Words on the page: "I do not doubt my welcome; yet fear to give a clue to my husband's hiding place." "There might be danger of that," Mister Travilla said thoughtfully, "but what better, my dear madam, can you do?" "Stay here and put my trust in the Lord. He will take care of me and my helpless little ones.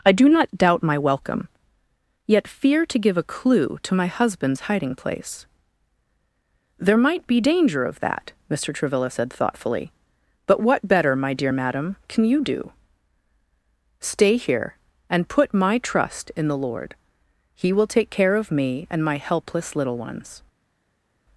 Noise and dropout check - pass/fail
pass